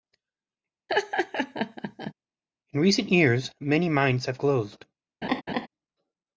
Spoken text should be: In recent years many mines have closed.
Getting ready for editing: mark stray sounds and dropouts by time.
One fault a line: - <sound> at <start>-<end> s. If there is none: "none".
- laugh at 0.9-2.1 s
- laugh at 5.2-5.7 s